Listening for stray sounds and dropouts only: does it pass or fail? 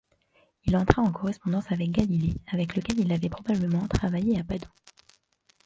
pass